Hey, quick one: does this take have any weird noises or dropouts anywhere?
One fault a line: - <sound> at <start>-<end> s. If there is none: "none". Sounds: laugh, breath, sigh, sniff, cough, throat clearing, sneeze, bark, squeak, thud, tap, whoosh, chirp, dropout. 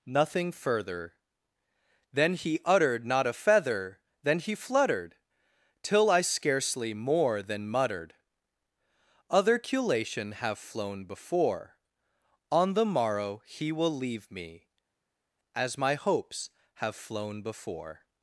none